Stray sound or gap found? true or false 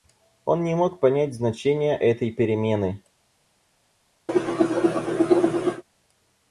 true